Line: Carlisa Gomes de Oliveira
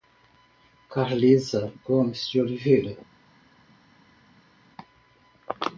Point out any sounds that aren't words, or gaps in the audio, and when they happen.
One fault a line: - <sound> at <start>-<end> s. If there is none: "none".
none